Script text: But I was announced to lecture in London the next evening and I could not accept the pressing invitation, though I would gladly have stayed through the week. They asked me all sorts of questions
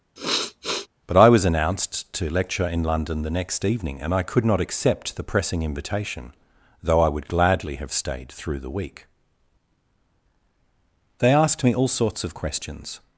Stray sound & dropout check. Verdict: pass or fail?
fail